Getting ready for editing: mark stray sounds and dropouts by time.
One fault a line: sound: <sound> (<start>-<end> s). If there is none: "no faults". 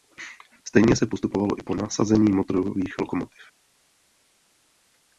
no faults